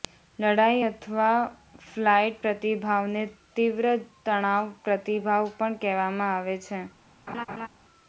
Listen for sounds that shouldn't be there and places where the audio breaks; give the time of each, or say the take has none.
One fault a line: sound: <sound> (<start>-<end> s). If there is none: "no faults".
sound: laugh (7.3-7.7 s)